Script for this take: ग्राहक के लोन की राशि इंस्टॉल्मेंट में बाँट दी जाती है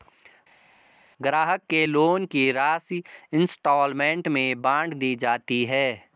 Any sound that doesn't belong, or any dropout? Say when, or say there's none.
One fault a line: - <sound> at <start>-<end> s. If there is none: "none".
none